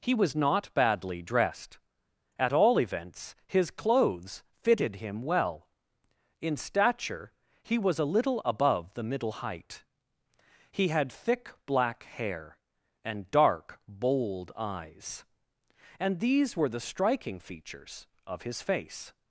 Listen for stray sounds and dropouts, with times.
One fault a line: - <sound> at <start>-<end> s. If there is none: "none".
none